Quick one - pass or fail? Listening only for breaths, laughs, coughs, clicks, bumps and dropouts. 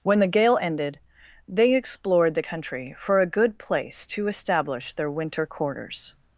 pass